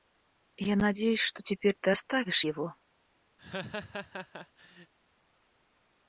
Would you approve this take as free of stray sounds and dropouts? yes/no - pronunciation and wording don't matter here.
no